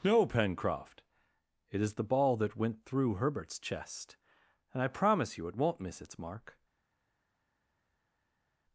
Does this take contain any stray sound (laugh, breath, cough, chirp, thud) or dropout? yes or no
no